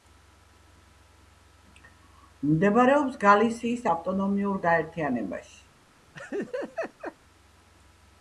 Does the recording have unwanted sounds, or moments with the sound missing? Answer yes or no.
yes